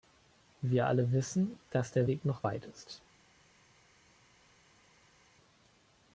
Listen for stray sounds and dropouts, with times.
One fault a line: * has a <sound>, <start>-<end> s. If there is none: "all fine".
all fine